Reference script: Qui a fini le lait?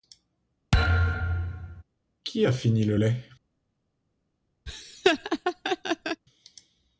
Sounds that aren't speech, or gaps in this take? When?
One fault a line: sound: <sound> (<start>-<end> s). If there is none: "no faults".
sound: thud (0.7-1.8 s)
sound: laugh (4.7-6.2 s)